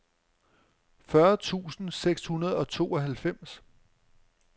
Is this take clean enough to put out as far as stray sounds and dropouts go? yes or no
yes